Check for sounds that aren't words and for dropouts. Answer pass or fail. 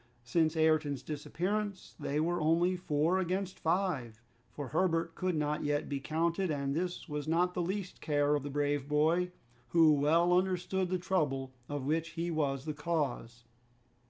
pass